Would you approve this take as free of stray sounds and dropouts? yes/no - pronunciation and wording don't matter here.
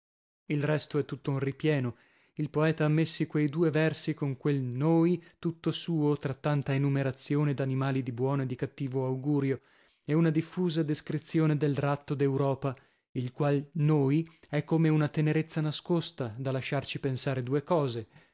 yes